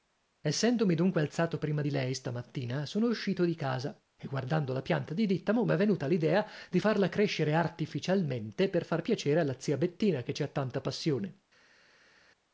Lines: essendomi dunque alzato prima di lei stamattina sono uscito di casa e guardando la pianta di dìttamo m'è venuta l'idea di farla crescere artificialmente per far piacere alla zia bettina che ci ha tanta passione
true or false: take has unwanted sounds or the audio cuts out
false